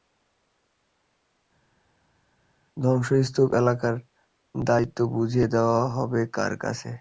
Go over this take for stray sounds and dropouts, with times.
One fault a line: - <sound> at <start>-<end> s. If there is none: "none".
none